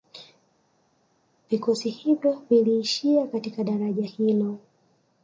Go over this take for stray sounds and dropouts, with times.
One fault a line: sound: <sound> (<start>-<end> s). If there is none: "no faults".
no faults